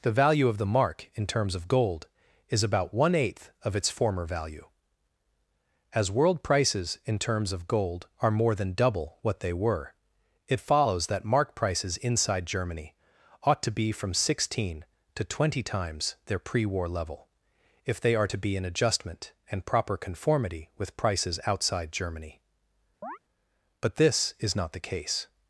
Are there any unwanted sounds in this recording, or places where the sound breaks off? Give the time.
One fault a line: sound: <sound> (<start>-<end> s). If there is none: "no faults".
sound: chirp (23.0-23.2 s)